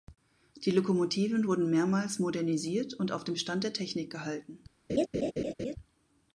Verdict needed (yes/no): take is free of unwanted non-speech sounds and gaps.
no